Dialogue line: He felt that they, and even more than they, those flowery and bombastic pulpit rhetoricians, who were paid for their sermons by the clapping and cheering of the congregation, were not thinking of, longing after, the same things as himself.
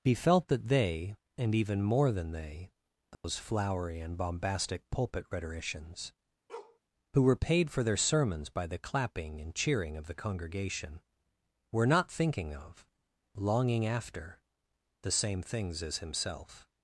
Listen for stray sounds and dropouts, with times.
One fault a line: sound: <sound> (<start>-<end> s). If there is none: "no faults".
sound: dropout (3.1-3.2 s)
sound: bark (6.5-6.8 s)